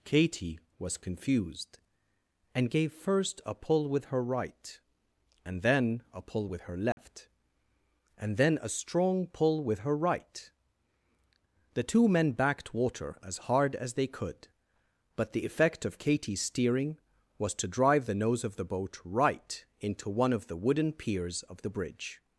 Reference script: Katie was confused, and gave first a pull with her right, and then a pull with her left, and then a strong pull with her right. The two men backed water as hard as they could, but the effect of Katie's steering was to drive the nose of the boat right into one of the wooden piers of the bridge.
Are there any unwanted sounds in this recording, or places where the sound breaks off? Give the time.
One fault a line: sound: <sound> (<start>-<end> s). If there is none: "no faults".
sound: dropout (6.9-7.0 s)